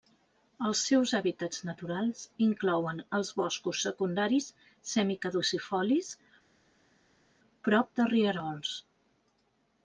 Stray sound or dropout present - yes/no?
no